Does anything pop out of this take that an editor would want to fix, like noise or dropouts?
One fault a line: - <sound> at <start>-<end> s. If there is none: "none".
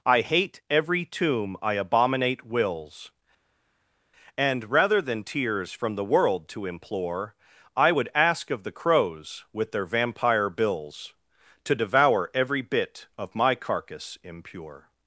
none